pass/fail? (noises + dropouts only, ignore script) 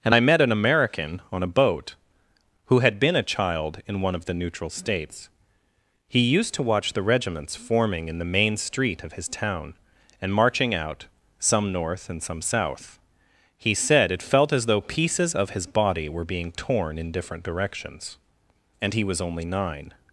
pass